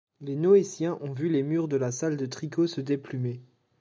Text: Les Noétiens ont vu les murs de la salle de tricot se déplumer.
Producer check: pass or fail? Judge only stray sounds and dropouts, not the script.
pass